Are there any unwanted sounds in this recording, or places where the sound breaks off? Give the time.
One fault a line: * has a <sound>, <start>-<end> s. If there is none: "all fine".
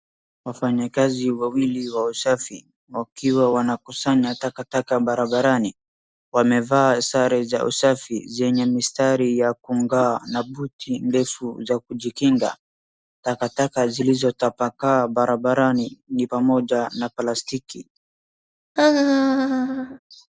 * has a laugh, 18.8-20.0 s